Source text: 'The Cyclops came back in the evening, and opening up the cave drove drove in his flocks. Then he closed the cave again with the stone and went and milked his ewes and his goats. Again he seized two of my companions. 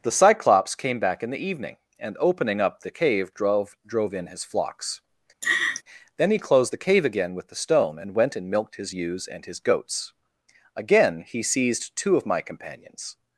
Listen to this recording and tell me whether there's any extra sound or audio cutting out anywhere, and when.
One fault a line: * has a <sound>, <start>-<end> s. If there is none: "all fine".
* has a laugh, 5.4-5.8 s